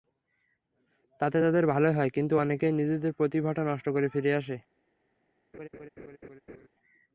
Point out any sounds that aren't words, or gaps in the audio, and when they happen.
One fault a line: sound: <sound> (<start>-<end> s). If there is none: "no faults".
sound: laugh (5.5-6.7 s)